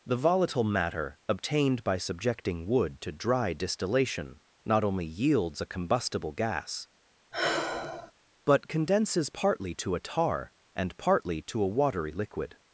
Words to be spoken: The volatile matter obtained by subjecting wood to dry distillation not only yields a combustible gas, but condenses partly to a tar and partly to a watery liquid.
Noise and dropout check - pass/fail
fail